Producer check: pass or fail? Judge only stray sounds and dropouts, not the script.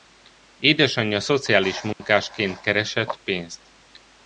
fail